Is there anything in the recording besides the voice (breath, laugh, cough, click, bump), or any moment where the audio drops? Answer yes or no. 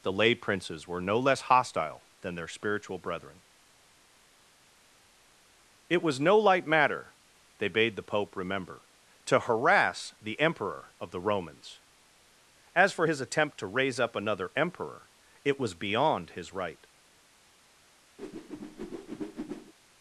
yes